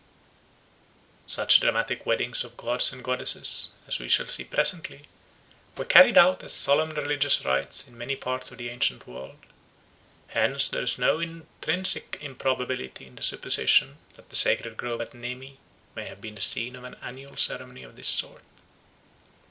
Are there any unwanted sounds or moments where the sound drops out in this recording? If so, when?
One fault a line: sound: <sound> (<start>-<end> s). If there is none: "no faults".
no faults